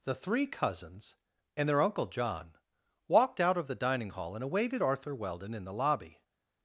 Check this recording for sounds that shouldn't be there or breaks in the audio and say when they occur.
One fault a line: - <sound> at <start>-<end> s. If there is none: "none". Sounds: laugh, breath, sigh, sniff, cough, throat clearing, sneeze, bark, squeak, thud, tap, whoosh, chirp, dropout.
none